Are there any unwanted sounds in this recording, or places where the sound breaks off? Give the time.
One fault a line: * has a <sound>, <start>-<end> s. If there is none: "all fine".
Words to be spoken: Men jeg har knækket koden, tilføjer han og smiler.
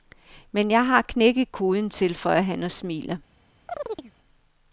* has a chirp, 3.7-4.1 s